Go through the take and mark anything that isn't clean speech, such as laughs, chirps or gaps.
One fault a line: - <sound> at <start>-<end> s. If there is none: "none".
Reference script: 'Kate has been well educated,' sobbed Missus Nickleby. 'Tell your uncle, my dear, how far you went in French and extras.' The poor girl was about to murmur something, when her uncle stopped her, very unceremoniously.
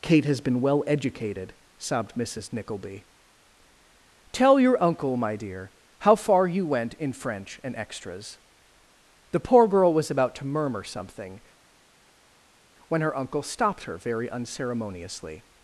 none